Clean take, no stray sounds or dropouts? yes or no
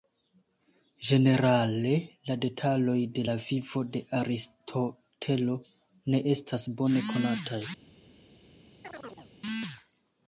no